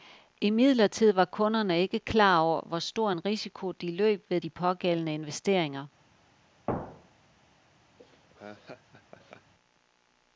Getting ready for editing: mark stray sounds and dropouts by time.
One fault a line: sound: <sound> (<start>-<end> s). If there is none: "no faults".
sound: thud (6.7-7.3 s)
sound: laugh (8.0-9.5 s)